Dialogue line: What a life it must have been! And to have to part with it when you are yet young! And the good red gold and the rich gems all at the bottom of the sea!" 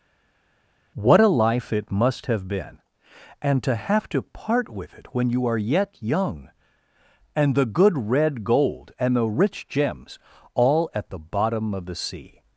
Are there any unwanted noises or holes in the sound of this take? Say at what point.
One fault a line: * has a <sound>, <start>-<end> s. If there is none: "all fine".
all fine